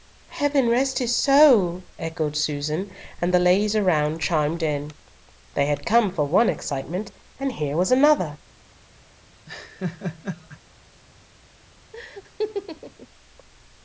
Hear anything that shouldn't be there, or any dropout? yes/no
yes